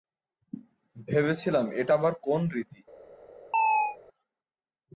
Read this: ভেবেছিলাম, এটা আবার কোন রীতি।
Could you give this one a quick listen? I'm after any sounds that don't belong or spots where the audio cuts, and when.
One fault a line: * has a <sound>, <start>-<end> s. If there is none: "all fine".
* has a chirp, 3.5-4.0 s